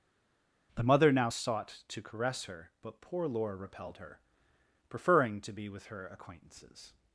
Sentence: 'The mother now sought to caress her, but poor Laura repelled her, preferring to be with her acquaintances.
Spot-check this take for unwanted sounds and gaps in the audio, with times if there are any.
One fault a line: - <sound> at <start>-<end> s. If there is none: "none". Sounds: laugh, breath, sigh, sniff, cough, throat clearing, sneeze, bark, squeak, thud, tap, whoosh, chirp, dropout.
none